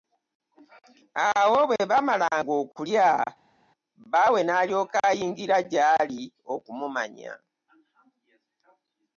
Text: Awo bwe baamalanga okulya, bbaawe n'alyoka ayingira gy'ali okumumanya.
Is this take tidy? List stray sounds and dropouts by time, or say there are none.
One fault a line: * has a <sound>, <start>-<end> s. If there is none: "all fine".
all fine